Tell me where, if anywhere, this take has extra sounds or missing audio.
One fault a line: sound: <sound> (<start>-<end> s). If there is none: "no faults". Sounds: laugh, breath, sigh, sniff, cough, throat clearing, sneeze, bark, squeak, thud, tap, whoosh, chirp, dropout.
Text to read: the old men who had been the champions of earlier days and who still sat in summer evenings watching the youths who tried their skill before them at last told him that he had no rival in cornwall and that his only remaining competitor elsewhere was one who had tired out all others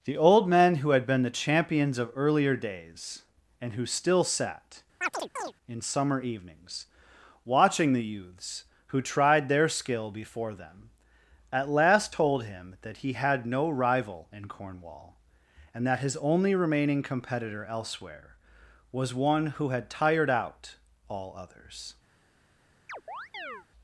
sound: chirp (5.0-5.5 s)
sound: chirp (22.9-23.7 s)